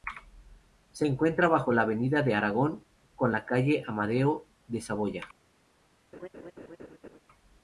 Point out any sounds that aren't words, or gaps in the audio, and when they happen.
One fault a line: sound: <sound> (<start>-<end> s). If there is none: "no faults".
sound: laugh (6.1-7.2 s)